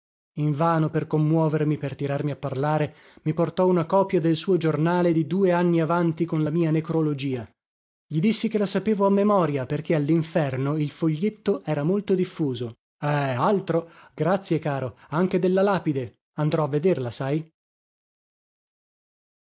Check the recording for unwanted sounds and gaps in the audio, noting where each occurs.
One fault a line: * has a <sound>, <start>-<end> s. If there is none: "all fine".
all fine